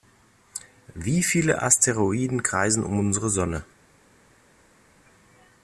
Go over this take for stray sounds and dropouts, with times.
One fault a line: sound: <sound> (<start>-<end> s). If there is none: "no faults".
no faults